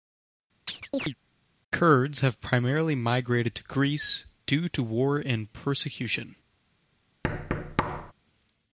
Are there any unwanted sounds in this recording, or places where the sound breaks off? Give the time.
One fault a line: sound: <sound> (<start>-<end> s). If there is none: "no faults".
sound: chirp (0.7-1.2 s)
sound: thud (7.2-8.1 s)